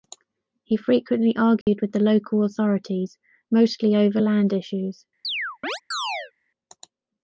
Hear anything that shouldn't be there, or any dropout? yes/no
yes